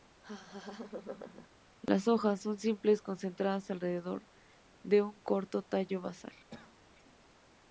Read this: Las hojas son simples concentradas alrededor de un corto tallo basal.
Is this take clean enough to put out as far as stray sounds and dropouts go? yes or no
no